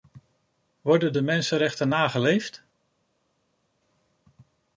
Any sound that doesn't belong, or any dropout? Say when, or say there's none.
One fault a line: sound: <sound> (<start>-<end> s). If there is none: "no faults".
no faults